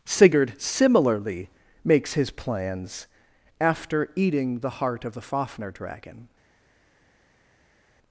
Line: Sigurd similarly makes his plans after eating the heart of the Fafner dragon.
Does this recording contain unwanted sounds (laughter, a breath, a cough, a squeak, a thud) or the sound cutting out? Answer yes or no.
no